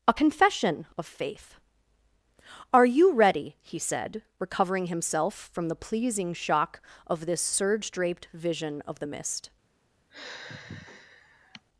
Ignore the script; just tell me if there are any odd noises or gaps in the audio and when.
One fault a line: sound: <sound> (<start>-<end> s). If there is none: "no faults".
sound: sigh (10.1-11.6 s)